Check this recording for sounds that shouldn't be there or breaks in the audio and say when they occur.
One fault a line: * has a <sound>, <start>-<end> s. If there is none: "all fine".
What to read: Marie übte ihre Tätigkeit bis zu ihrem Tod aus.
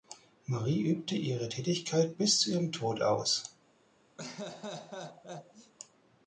* has a laugh, 4.2-5.7 s